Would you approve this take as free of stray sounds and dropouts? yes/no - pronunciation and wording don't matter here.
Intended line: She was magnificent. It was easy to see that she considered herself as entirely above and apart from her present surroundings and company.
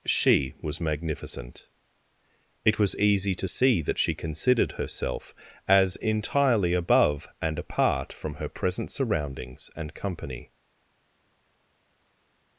yes